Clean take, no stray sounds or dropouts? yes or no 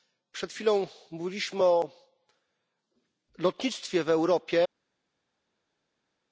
yes